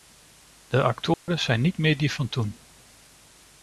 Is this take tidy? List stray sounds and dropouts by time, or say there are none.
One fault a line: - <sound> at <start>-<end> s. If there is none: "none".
- dropout at 1.1-1.3 s